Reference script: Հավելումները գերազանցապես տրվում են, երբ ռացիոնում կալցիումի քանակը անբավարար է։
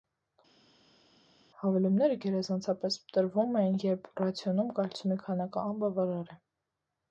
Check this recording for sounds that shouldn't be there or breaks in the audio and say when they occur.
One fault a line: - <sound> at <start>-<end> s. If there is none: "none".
none